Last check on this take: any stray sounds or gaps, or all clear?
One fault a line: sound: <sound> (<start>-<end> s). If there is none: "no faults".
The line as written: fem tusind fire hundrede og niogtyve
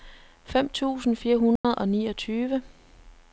sound: dropout (1.6-1.6 s)